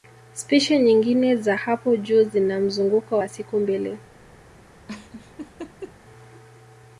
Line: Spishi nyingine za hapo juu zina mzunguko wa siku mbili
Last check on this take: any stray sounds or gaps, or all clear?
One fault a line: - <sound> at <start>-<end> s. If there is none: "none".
- laugh at 4.9-6.0 s